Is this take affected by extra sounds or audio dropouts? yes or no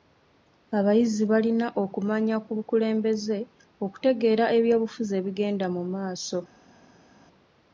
no